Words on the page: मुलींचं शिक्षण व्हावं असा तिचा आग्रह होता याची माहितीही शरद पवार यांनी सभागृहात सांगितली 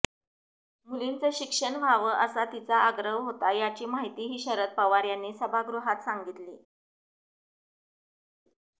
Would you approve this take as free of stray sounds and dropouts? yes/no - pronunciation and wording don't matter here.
yes